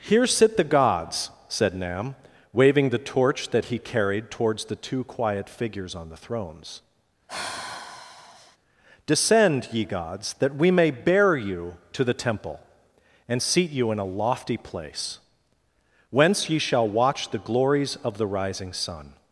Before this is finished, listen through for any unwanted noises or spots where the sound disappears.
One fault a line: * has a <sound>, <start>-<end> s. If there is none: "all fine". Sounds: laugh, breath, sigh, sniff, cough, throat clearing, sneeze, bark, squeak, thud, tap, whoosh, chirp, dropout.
* has a sigh, 7.3-8.6 s